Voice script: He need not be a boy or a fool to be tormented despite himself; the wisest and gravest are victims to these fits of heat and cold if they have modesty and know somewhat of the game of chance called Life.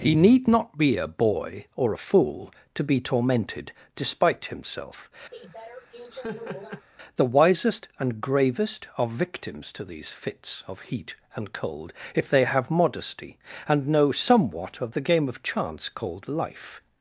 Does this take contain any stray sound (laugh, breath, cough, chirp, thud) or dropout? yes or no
yes